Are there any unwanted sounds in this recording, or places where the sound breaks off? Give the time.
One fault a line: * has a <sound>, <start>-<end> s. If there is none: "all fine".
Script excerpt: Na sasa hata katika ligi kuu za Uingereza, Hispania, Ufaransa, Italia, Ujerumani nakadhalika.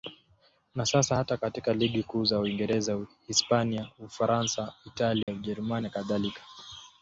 * has a dropout, 5.2-5.3 s